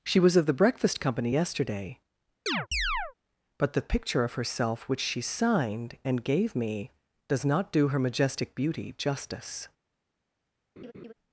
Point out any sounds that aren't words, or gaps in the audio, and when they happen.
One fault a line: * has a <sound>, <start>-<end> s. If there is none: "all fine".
* has a chirp, 2.5-3.1 s
* has a laugh, 10.8-11.1 s